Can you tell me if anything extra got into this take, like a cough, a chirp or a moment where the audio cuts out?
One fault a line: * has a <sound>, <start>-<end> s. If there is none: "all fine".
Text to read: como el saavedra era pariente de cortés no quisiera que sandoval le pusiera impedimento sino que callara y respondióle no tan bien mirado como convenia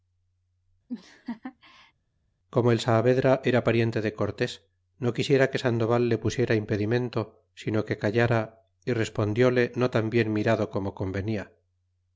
* has a laugh, 0.9-1.9 s